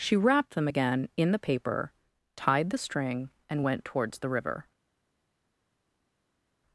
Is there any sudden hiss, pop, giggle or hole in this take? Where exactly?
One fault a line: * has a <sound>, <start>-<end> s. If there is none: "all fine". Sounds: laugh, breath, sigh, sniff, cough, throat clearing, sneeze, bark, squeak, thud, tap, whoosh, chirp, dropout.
all fine